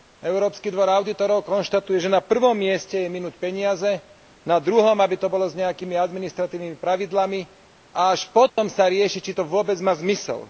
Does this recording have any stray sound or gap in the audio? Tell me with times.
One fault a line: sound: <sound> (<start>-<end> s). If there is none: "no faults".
sound: dropout (8.5-8.6 s)